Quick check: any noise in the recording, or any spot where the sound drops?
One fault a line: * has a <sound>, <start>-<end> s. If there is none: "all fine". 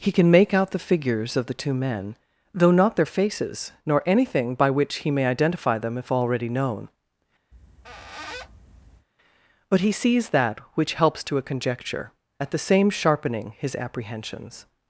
* has a squeak, 7.5-9.1 s